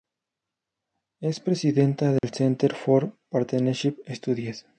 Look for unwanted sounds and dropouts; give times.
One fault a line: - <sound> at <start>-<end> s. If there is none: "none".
- dropout at 2.2-2.2 s